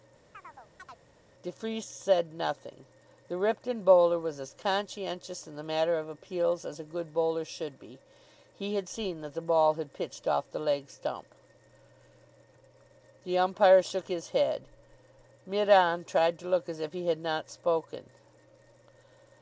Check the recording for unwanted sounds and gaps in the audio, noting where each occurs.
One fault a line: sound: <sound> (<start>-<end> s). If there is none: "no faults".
sound: chirp (0.3-1.0 s)